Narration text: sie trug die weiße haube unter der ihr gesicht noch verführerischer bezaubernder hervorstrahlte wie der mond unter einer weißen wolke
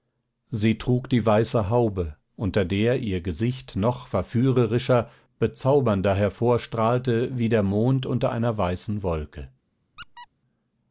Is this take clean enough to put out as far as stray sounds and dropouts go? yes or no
no